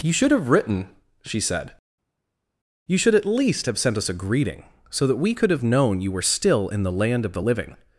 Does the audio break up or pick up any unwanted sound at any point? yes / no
no